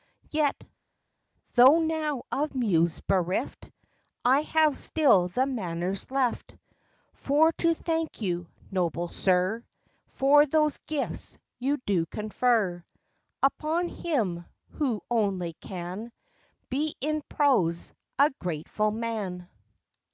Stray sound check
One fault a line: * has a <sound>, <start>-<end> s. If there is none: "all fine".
all fine